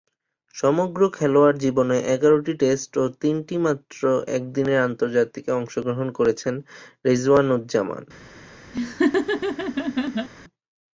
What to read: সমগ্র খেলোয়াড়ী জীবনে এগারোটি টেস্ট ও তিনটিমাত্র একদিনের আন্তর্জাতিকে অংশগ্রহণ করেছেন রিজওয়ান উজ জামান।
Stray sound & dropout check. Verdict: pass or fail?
fail